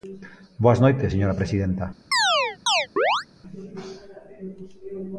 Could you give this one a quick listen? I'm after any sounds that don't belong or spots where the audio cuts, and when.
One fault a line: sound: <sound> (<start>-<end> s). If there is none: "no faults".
sound: chirp (2.1-3.3 s)